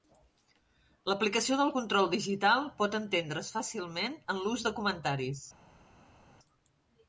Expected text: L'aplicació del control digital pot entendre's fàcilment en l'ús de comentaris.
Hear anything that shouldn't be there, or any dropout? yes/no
no